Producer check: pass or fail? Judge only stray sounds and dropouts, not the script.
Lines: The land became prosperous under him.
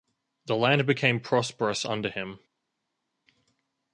pass